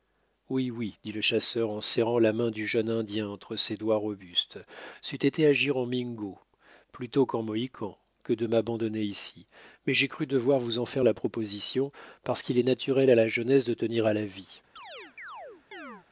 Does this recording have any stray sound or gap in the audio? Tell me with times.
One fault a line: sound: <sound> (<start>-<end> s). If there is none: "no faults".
sound: chirp (14.8-16.1 s)